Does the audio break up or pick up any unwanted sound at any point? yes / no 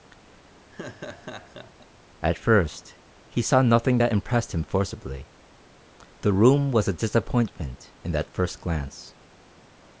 yes